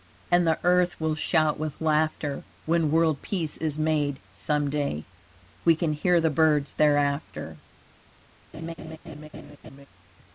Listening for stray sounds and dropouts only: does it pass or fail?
fail